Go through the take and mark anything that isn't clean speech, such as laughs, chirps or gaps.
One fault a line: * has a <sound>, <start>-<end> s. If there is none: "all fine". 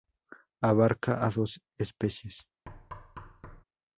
* has a thud, 2.7-3.6 s